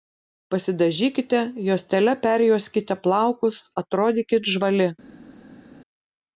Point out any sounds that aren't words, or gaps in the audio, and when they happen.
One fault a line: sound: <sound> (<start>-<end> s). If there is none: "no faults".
no faults